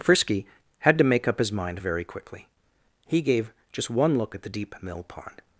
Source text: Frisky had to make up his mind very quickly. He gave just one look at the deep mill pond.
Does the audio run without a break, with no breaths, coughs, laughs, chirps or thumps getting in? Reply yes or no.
yes